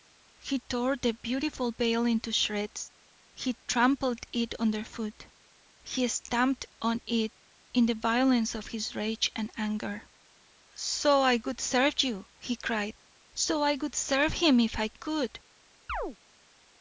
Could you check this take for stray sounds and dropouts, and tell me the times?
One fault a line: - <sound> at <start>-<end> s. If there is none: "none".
- chirp at 15.9-16.2 s